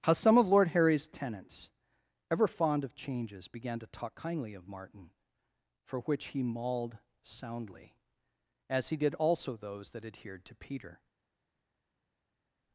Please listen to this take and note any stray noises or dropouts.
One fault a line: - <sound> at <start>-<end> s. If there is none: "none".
none